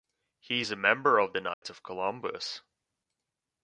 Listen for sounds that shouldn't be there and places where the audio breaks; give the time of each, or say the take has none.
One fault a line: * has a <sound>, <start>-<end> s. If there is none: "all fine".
* has a dropout, 1.5-1.6 s